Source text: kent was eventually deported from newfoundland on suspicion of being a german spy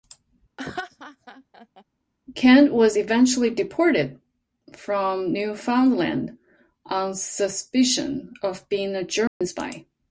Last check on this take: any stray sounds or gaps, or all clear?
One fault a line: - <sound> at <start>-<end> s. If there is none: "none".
- laugh at 0.6-1.8 s
- dropout at 9.3-9.4 s